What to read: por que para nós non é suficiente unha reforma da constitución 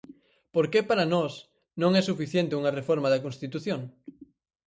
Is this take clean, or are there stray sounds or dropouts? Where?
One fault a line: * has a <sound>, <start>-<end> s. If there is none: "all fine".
all fine